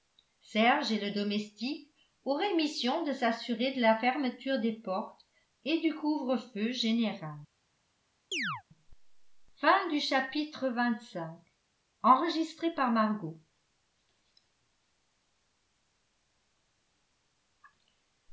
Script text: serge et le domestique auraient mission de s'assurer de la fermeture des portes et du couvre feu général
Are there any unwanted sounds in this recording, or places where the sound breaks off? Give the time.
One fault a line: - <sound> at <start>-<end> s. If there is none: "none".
- chirp at 8.3-8.6 s